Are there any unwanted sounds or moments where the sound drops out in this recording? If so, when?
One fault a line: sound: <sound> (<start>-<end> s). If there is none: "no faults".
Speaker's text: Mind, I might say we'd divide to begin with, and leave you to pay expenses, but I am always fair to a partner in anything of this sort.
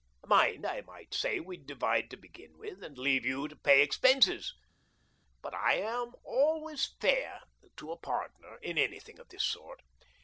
no faults